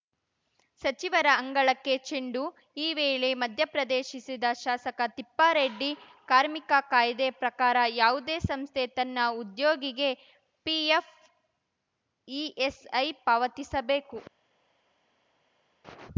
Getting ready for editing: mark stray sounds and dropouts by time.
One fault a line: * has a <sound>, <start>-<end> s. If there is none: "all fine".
all fine